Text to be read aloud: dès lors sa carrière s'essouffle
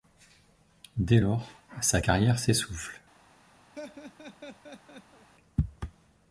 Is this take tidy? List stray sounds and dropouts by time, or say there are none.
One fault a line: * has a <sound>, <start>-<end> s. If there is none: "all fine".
* has a laugh, 3.7-5.3 s